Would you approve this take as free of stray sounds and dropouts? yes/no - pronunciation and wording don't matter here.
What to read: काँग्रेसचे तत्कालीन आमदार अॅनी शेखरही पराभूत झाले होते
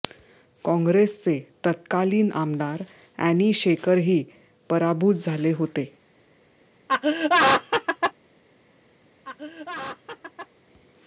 no